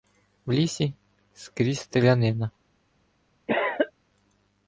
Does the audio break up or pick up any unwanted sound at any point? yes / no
yes